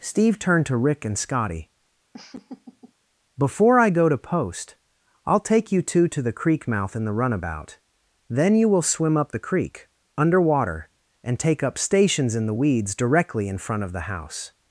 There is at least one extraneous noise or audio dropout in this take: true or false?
true